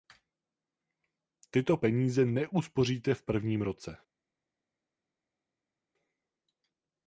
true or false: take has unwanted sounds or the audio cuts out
false